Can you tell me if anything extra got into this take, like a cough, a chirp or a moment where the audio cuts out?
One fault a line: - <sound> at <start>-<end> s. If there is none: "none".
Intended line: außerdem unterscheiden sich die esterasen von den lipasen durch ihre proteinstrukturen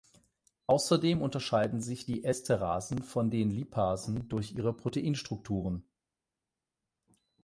none